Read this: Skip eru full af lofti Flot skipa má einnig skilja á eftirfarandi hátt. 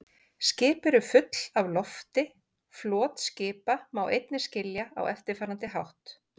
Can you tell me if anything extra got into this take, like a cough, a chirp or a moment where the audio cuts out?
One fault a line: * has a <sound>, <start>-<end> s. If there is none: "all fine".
all fine